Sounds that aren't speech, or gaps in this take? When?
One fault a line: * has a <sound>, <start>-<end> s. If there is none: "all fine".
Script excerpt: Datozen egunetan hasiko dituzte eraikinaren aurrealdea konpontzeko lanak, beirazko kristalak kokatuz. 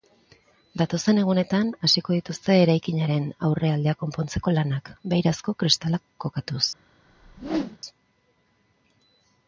* has a whoosh, 7.0-7.8 s